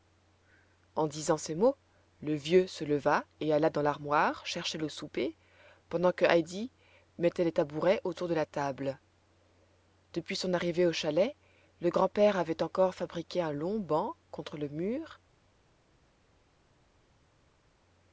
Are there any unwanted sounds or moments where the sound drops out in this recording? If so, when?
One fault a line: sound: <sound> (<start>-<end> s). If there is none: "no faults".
no faults